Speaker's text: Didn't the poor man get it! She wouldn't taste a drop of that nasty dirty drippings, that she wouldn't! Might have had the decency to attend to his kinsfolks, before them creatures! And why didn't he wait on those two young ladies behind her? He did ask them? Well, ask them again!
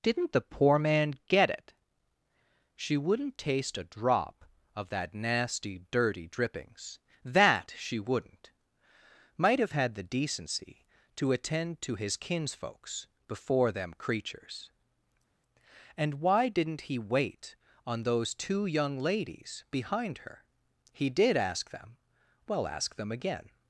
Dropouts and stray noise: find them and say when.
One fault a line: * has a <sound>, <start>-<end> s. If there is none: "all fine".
all fine